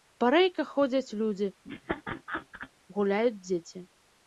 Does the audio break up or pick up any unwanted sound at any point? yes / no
yes